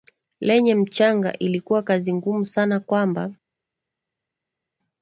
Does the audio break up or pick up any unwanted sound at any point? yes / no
no